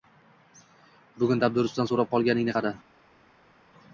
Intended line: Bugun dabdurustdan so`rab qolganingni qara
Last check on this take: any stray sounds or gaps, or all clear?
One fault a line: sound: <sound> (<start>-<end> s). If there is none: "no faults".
no faults